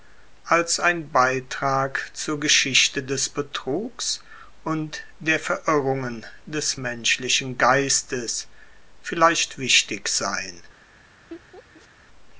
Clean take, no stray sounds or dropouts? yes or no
no